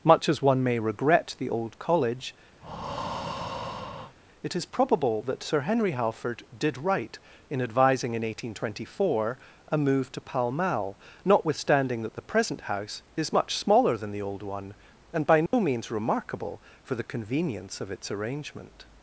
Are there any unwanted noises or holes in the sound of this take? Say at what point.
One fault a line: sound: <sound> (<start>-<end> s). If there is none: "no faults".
sound: breath (2.6-4.2 s)
sound: dropout (15.5-15.5 s)